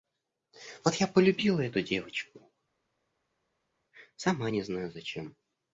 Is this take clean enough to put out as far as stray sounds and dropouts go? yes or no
yes